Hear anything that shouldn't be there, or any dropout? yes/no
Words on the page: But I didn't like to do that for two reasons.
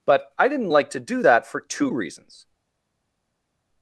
no